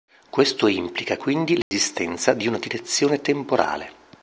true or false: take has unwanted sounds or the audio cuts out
true